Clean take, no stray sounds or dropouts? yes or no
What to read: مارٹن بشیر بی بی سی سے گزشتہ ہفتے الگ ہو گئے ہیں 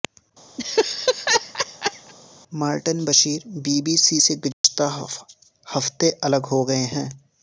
no